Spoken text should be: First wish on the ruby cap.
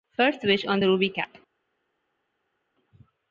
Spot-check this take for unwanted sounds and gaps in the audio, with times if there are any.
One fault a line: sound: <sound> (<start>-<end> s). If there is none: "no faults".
no faults